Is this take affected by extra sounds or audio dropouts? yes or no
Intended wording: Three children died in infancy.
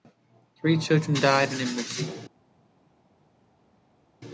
no